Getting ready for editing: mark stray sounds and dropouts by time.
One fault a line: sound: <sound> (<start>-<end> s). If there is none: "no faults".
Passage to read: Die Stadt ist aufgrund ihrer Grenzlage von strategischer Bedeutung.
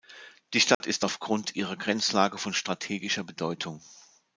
sound: dropout (0.7-0.8 s)